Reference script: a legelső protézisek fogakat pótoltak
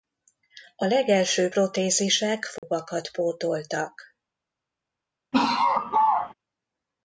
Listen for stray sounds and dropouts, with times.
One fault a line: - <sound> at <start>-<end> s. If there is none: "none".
- dropout at 2.6-2.6 s
- laugh at 5.3-6.3 s